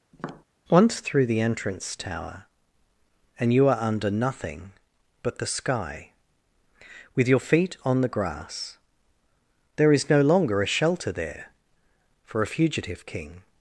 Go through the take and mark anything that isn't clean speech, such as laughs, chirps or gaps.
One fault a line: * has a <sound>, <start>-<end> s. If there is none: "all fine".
* has a tap, 0.1-0.4 s